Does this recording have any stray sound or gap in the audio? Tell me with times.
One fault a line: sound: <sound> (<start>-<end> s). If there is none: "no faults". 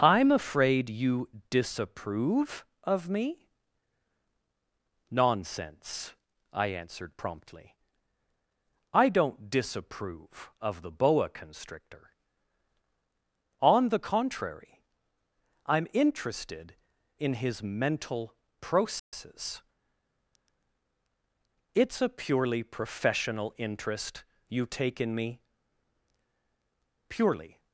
sound: dropout (19.0-19.1 s)